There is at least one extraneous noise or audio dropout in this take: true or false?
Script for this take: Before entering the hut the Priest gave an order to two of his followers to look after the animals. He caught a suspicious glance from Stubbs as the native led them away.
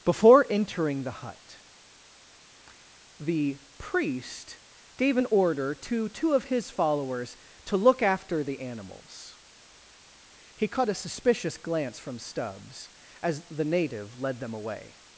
false